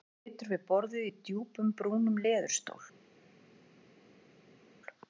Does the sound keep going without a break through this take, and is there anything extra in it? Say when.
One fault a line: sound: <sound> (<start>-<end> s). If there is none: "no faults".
no faults